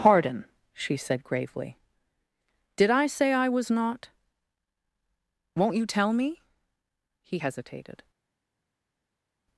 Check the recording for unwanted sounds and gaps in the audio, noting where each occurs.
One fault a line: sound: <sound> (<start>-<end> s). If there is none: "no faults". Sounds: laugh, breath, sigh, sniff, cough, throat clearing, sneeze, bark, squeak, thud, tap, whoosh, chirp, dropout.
no faults